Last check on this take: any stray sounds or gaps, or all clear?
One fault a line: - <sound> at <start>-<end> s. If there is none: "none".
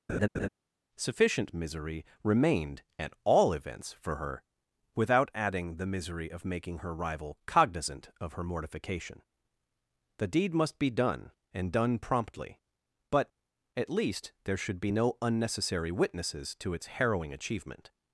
- laugh at 0.1-0.5 s